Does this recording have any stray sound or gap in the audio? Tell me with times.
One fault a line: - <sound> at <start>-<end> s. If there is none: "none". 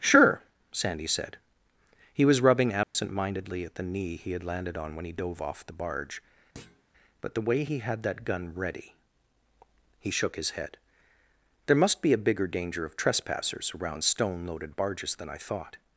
- dropout at 2.8-3.0 s
- thud at 6.5-6.8 s